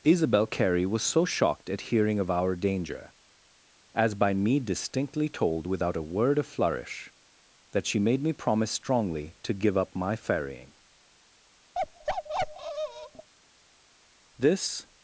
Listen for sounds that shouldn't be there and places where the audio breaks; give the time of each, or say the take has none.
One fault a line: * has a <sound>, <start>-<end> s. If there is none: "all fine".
* has a bark, 11.7-13.3 s